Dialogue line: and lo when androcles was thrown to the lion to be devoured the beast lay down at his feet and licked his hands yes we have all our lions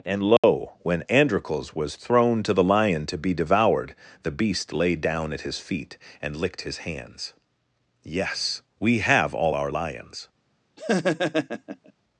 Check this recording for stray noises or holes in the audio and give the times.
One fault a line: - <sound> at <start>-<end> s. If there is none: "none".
- dropout at 0.4-0.4 s
- laugh at 10.8-11.9 s